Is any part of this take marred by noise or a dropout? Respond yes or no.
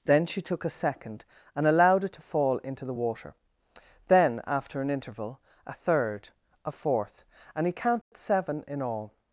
yes